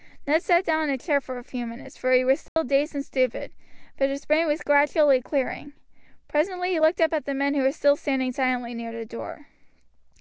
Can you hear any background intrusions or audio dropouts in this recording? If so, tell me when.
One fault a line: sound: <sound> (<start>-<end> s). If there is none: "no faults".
sound: dropout (2.5-2.6 s)